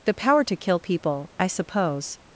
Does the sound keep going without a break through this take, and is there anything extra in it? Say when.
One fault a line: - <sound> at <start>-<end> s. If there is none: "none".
none